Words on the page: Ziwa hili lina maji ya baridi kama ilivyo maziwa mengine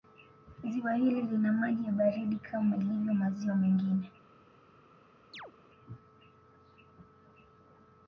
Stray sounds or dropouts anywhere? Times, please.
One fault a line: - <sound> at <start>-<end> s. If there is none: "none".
- chirp at 5.3-5.5 s